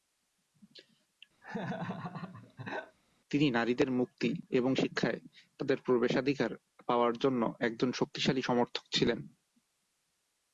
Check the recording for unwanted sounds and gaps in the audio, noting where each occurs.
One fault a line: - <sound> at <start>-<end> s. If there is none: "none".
- laugh at 1.4-3.0 s